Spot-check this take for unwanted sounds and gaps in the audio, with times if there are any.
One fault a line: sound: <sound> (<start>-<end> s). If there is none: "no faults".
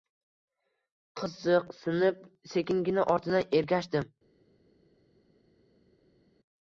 no faults